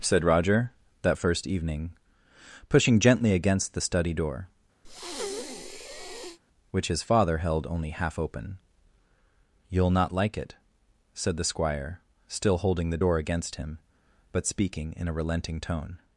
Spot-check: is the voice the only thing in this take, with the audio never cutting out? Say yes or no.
no